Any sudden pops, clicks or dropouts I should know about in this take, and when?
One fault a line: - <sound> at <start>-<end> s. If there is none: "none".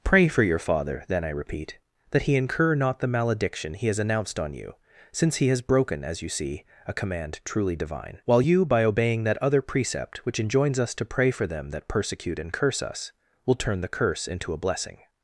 none